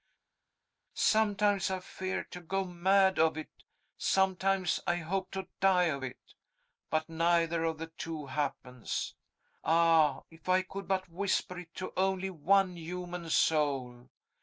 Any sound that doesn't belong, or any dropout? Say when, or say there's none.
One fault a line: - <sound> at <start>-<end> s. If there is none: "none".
none